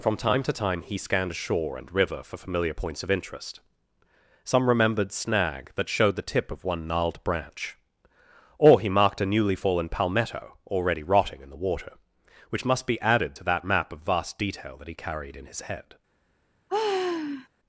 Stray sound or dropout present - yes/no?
yes